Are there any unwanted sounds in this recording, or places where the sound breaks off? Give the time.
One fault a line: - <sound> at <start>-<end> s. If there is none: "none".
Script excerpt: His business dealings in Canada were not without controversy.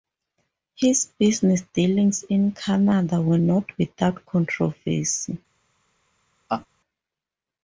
- laugh at 6.5-6.7 s